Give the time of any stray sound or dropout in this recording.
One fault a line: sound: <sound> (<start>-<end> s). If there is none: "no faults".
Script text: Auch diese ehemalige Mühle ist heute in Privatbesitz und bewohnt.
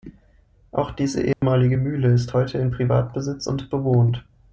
sound: dropout (1.3-1.4 s)